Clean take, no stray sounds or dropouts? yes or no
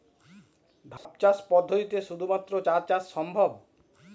no